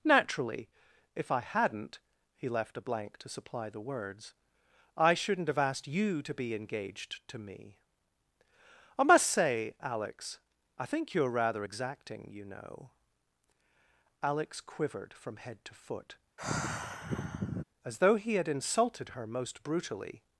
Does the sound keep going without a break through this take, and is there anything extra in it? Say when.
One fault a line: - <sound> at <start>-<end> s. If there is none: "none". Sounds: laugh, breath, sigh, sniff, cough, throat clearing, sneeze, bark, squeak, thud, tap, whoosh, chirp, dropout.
- sigh at 16.4-17.6 s